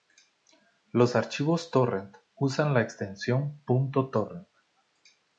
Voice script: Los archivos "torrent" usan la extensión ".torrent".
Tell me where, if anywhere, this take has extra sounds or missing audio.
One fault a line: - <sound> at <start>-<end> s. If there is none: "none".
none